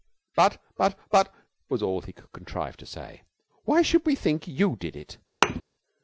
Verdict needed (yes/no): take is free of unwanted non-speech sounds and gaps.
no